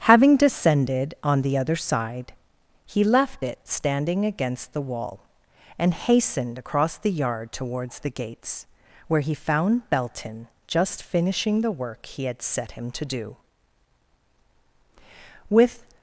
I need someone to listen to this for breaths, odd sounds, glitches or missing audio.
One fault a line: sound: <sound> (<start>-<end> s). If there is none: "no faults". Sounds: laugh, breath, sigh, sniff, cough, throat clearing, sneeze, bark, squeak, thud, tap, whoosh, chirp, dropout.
no faults